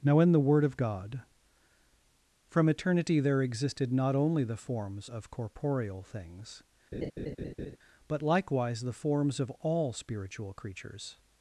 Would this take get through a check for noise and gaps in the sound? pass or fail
fail